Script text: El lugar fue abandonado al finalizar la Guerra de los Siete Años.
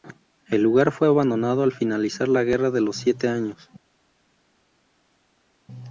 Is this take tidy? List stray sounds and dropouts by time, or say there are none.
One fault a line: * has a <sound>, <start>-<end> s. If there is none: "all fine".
all fine